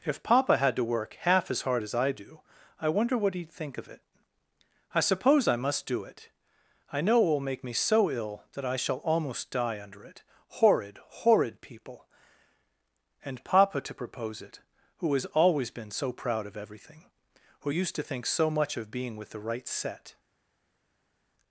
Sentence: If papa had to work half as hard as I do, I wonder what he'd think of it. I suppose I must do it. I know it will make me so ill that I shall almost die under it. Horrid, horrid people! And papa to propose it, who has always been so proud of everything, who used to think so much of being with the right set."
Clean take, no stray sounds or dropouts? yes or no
yes